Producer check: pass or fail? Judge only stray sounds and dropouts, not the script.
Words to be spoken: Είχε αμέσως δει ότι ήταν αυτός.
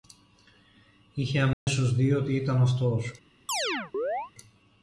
fail